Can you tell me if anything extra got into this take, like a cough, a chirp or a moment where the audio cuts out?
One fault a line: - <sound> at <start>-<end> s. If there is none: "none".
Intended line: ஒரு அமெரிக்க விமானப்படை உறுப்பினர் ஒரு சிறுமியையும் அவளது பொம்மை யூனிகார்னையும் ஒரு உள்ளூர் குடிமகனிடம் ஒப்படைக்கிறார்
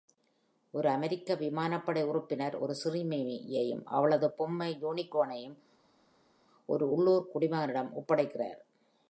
none